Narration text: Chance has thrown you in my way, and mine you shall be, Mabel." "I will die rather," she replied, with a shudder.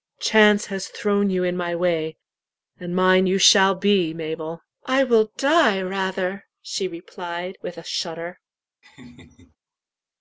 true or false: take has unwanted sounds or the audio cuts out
true